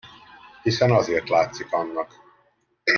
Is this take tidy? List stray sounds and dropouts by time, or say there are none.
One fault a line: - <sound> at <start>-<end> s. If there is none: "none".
none